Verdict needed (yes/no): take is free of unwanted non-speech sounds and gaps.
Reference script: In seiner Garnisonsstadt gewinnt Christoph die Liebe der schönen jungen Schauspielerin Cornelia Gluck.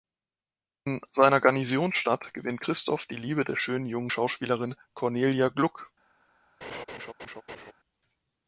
no